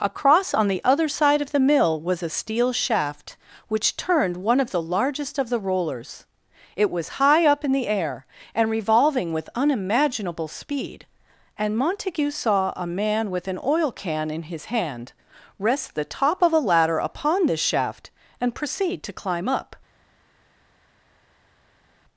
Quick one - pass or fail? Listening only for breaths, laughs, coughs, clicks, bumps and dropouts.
pass